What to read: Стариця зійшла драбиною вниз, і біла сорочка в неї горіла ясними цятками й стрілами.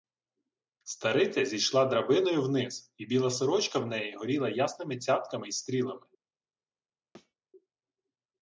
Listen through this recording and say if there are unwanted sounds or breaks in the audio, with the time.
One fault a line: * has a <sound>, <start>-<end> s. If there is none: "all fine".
* has a thud, 7.1-7.3 s